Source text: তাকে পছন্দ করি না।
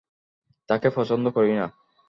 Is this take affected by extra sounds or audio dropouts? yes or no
no